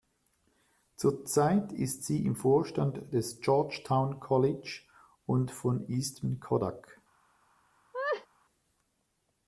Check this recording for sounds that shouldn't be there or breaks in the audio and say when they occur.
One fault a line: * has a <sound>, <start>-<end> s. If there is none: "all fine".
* has a laugh, 7.9-8.3 s